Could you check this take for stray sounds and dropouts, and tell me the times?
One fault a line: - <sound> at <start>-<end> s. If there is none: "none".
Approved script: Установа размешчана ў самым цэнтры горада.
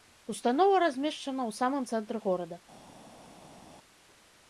none